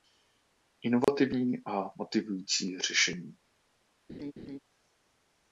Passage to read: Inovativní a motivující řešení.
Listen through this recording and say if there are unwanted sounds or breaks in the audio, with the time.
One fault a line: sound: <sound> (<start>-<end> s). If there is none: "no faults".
sound: dropout (1.0-1.1 s)
sound: laugh (4.1-4.6 s)